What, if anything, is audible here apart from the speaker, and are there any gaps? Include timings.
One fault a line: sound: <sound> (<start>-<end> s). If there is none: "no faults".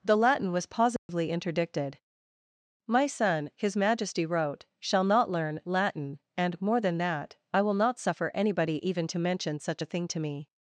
sound: dropout (1.0-1.1 s)